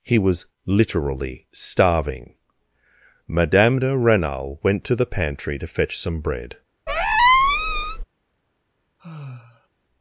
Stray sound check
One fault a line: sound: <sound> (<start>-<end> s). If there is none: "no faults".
sound: squeak (6.9-8.0 s)
sound: sigh (9.0-9.7 s)